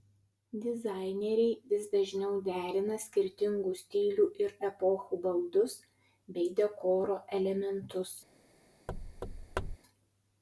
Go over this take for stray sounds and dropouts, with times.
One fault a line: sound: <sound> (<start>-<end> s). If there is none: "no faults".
sound: thud (8.9-9.8 s)